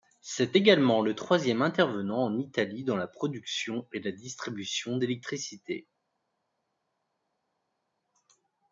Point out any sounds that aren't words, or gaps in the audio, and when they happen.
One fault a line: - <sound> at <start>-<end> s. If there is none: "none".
none